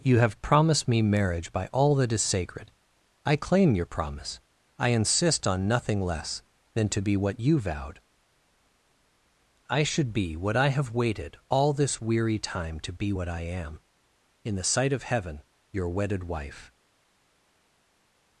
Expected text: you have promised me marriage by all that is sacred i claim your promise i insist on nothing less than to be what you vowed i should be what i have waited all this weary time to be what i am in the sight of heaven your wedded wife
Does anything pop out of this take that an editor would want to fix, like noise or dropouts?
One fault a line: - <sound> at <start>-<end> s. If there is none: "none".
none